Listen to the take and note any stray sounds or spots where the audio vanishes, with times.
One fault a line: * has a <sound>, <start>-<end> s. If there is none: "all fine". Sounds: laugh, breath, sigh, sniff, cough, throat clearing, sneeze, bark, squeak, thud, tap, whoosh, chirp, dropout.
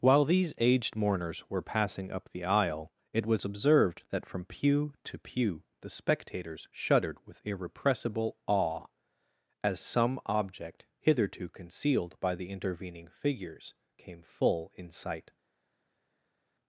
all fine